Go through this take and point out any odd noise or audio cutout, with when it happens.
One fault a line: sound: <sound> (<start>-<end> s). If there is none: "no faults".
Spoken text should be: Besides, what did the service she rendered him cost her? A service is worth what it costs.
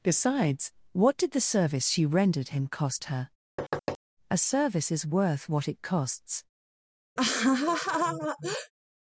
sound: thud (3.6-4.0 s)
sound: laugh (7.2-8.7 s)